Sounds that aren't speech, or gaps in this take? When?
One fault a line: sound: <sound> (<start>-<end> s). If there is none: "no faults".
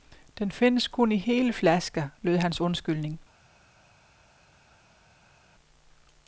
no faults